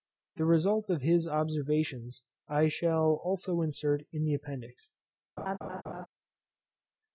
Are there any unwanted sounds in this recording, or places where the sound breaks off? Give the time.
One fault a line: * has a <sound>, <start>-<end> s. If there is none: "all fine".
* has a laugh, 5.4-6.1 s